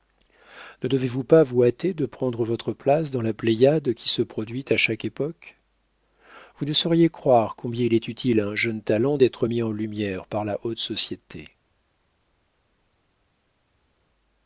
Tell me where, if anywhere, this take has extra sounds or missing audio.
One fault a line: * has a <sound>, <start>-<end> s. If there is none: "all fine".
all fine